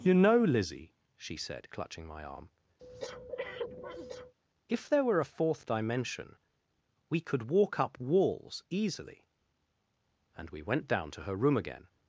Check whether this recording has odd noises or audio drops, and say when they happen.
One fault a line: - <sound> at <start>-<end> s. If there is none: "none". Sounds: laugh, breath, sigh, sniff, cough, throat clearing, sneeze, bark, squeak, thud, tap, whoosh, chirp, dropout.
- breath at 2.8-4.3 s